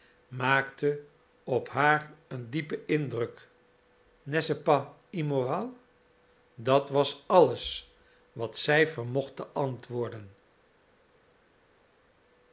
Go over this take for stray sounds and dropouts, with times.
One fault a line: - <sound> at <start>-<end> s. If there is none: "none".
none